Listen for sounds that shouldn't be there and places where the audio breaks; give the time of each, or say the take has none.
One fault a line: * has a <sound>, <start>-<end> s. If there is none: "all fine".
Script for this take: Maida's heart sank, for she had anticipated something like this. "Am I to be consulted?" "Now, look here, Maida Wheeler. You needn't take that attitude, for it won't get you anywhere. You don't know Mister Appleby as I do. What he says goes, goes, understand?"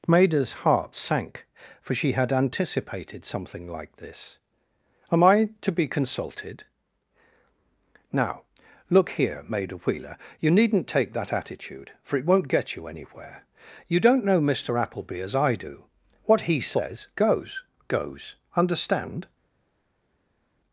all fine